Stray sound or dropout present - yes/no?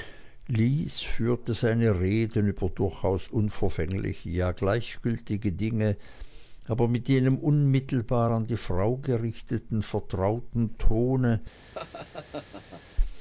yes